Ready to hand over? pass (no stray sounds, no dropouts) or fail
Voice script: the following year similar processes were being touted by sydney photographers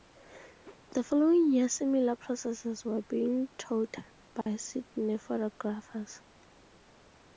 fail